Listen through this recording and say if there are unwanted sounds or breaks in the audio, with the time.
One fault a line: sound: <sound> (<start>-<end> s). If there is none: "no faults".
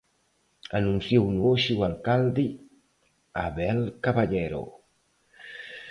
no faults